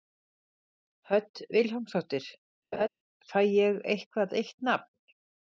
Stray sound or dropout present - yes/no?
yes